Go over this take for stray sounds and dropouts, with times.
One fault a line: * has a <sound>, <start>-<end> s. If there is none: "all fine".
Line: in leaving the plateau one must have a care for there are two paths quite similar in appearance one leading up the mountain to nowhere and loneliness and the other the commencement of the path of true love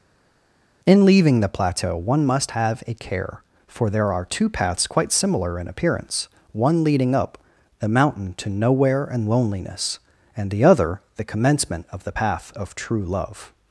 all fine